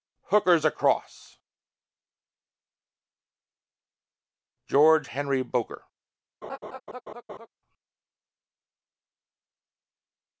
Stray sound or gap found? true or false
true